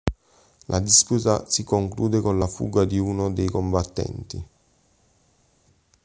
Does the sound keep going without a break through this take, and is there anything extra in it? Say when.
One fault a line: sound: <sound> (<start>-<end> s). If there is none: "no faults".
no faults